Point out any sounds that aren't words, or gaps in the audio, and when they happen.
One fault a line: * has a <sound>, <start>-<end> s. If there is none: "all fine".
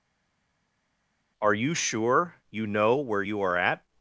all fine